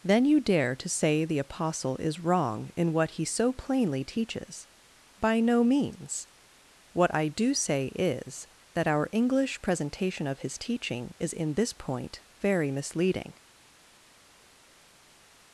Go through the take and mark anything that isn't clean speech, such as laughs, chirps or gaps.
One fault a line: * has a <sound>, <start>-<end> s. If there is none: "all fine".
all fine